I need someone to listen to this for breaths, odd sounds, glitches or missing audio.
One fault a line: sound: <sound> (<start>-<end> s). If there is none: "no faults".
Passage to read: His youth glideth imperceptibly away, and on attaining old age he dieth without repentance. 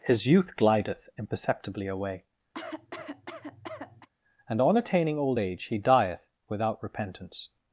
sound: cough (2.5-4.1 s)